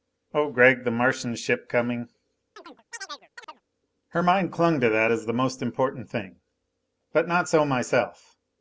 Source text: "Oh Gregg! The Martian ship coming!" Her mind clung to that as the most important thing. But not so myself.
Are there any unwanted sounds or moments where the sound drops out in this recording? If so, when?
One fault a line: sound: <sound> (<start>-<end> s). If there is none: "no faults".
sound: chirp (2.6-3.6 s)